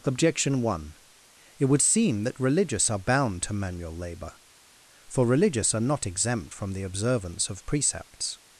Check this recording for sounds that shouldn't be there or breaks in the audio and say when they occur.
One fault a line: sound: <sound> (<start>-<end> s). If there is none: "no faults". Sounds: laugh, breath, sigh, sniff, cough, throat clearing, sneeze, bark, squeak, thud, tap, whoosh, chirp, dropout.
no faults